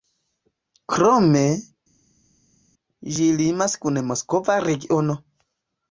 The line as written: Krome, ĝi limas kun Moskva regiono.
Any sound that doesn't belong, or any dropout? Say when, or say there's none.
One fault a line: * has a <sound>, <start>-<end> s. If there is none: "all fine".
all fine